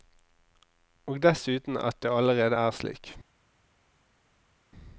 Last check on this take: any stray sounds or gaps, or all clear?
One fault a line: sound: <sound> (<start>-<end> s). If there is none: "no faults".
no faults